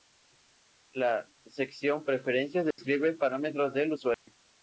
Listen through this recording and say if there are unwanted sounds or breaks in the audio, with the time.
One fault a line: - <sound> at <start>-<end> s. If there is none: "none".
- dropout at 2.7-2.8 s
- dropout at 4.1-4.3 s